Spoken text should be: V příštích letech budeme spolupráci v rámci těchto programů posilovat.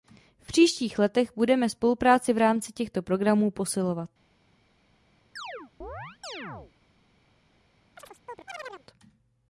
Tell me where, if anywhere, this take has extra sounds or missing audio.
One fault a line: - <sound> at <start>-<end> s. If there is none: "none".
- chirp at 5.4-6.7 s
- chirp at 8.0-8.9 s